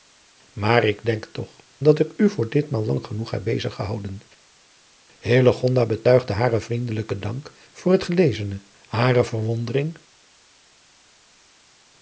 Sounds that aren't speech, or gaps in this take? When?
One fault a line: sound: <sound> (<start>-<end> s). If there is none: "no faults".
no faults